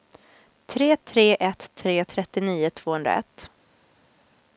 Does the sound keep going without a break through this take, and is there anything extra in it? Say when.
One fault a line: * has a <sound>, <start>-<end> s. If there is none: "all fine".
all fine